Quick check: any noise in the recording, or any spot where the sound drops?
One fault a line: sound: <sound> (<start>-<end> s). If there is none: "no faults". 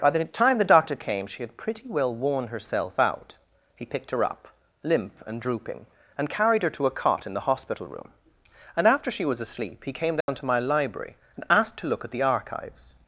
sound: dropout (10.2-10.3 s)